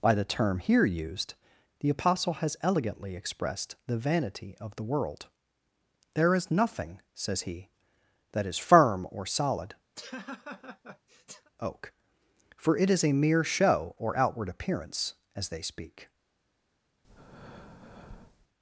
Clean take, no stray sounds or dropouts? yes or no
no